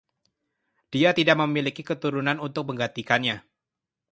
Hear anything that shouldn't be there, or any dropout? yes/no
no